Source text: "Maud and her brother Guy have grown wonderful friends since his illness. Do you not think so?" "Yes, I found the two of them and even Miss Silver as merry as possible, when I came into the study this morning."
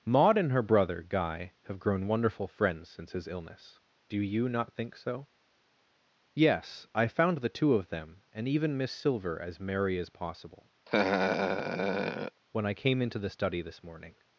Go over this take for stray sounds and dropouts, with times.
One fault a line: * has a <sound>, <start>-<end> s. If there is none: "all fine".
* has a laugh, 10.9-12.4 s